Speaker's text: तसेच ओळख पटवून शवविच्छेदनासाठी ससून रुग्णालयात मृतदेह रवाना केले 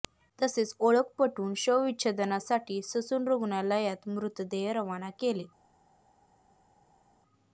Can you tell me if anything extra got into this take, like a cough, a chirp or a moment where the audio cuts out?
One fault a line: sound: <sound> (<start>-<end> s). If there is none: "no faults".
no faults